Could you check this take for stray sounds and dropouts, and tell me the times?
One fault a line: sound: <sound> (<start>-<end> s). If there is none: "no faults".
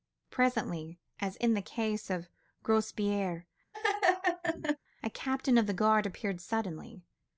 sound: laugh (3.7-4.8 s)